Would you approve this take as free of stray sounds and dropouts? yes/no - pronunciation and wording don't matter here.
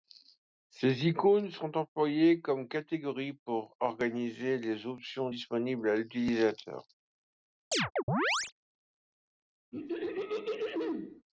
no